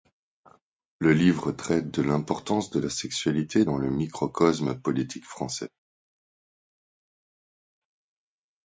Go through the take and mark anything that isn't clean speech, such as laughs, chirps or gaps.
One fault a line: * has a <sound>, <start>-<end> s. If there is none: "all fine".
all fine